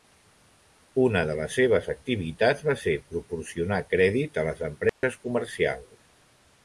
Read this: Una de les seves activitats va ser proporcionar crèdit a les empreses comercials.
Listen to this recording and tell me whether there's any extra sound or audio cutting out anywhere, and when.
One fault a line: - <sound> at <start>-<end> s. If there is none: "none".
- dropout at 4.9-5.0 s